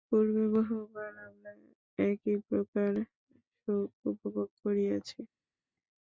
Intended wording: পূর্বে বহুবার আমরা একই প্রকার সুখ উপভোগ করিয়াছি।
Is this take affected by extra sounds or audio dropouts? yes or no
no